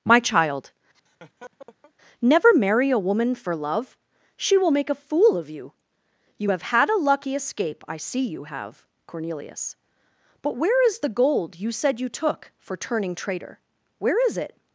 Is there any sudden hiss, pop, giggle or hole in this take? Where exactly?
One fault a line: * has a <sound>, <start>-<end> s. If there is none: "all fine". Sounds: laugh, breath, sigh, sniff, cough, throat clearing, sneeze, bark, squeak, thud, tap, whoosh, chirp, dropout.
* has a laugh, 0.9-1.9 s